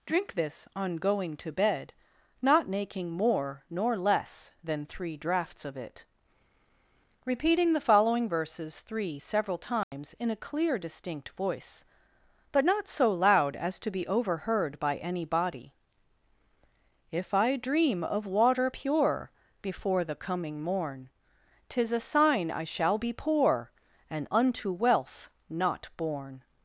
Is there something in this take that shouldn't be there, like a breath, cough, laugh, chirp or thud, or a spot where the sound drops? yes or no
yes